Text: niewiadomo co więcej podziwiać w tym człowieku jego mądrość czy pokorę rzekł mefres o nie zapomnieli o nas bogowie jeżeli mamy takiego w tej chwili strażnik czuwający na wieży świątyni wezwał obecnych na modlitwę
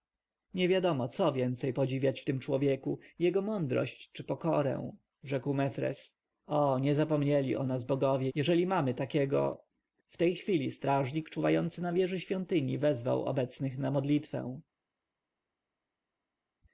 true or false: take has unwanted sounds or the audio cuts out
false